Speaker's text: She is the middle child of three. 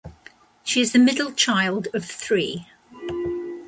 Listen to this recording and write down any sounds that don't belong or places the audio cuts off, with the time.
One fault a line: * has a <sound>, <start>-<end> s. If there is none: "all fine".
all fine